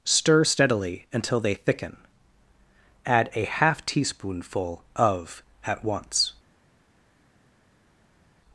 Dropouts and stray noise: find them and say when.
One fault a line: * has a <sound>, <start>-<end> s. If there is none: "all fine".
all fine